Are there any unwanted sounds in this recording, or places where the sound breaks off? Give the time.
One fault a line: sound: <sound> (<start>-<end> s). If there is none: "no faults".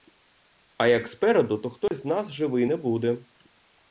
sound: dropout (1.9-1.9 s)